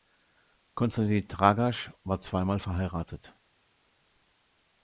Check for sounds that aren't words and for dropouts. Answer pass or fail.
pass